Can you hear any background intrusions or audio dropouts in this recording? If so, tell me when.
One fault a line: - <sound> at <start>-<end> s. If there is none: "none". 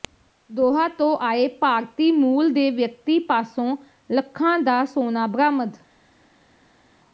none